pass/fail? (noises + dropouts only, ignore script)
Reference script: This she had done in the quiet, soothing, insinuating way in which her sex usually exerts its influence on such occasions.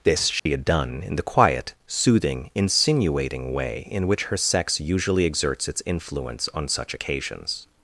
fail